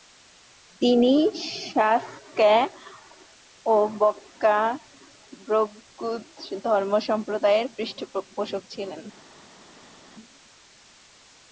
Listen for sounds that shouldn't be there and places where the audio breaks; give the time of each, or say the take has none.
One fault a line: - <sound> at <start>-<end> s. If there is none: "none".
none